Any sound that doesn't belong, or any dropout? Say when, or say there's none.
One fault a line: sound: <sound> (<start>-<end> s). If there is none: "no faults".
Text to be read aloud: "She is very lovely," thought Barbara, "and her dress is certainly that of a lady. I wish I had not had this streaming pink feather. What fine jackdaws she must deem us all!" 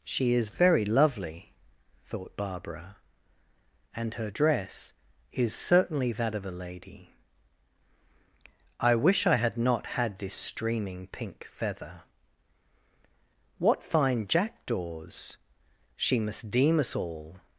no faults